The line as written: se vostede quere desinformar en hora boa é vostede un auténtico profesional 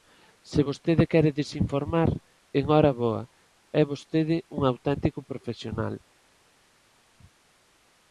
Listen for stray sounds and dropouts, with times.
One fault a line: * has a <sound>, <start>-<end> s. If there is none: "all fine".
all fine